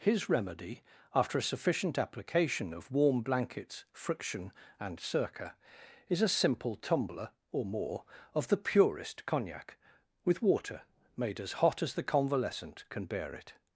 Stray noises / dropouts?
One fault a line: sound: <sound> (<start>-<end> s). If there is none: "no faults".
no faults